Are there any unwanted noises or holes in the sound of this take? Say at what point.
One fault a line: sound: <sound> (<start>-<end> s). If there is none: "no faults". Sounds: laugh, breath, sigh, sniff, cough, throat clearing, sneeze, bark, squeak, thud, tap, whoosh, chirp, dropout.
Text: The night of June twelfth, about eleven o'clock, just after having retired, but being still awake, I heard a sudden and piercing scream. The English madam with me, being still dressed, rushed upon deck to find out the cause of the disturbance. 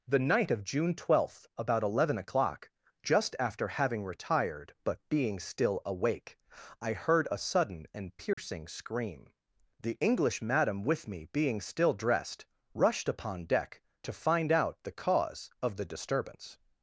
sound: dropout (8.3-8.4 s)